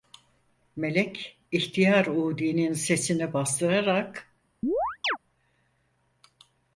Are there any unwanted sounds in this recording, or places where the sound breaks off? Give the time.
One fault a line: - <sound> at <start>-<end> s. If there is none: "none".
- chirp at 4.6-5.2 s